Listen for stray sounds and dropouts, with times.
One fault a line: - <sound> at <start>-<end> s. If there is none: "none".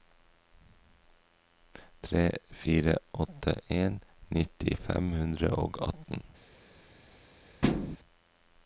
- thud at 7.6-8.0 s